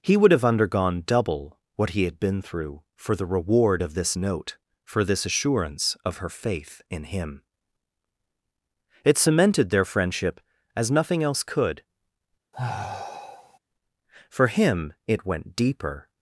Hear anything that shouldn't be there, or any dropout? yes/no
yes